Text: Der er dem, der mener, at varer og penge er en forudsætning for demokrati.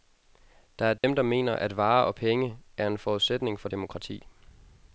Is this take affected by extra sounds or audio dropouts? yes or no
yes